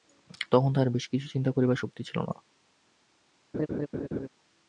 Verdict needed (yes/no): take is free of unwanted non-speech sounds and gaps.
no